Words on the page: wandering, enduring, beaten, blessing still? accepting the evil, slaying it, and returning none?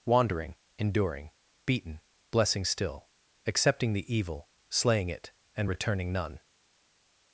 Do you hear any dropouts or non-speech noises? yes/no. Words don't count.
no